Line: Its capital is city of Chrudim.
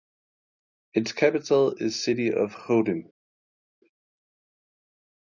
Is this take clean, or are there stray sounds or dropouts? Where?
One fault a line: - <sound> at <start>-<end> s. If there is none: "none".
none